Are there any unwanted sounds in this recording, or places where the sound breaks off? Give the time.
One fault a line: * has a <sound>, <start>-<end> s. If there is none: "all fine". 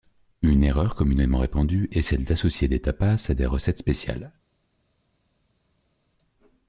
all fine